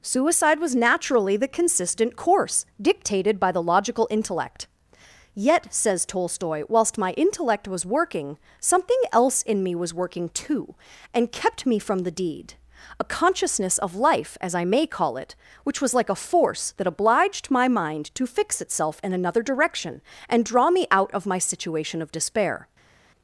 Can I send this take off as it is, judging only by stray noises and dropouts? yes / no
yes